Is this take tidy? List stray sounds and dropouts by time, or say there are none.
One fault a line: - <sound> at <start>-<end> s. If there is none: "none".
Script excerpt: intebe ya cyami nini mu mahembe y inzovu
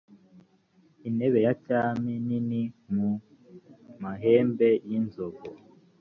none